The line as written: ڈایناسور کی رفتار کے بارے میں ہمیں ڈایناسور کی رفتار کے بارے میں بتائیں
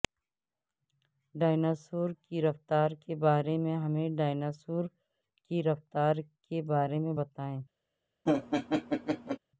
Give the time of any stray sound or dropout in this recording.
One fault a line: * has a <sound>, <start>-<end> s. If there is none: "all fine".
* has a laugh, 8.3-9.4 s